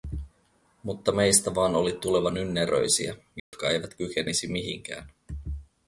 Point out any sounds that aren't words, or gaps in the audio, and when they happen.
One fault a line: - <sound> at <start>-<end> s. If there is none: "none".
- dropout at 3.4-3.5 s